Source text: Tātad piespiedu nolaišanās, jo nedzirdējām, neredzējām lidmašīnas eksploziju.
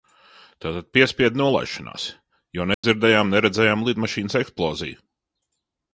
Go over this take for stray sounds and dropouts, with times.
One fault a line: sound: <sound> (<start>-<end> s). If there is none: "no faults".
sound: dropout (2.7-2.8 s)